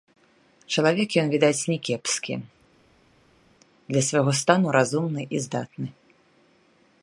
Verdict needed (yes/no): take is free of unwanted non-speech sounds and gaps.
yes